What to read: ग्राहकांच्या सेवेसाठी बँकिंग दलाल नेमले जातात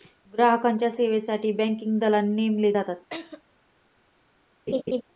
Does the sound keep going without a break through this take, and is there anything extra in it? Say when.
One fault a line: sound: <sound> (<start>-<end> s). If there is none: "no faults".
sound: laugh (3.1-3.4 s)
sound: laugh (4.7-5.0 s)